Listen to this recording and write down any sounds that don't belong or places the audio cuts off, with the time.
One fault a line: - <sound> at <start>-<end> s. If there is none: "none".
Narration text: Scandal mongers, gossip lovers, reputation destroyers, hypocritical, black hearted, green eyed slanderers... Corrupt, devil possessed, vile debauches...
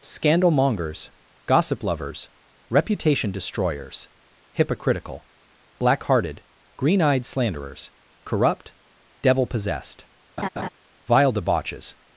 - laugh at 10.4-10.7 s